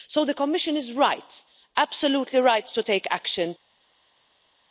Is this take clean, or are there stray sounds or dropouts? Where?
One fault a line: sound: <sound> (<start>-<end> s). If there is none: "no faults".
no faults